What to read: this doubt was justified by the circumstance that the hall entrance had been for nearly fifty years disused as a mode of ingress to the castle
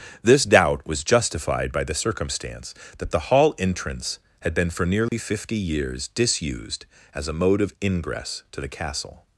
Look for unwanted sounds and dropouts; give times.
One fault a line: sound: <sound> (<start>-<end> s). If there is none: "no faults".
sound: dropout (5.1-5.1 s)